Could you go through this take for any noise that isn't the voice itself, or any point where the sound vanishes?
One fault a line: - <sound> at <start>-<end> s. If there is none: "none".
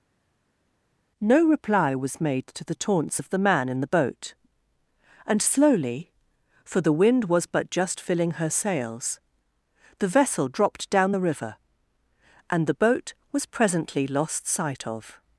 none